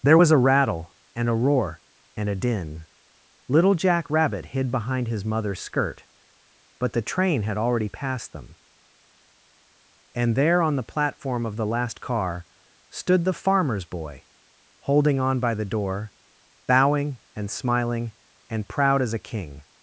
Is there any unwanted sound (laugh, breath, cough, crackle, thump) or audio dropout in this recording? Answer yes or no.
no